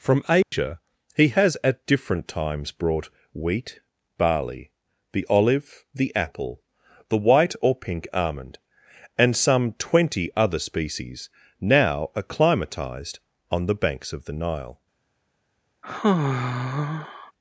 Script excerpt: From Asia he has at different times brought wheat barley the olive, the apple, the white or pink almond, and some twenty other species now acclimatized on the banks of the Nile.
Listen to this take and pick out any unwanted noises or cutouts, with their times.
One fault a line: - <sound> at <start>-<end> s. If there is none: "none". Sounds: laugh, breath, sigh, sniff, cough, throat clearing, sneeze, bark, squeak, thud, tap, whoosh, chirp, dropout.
- dropout at 0.4-0.5 s
- sigh at 15.8-17.3 s